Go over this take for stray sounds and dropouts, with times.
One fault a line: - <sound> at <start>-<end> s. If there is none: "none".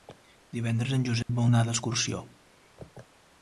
- dropout at 1.2-1.3 s